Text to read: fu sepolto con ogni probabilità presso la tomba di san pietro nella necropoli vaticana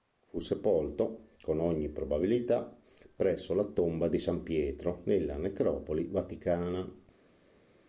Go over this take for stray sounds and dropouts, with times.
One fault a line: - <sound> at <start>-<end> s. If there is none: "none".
none